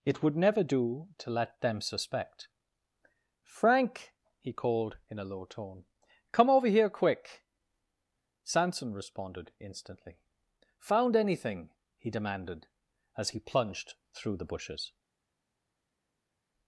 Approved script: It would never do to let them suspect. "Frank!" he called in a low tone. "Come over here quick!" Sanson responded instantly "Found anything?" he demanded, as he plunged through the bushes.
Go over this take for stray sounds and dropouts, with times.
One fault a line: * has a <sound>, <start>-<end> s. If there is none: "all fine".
all fine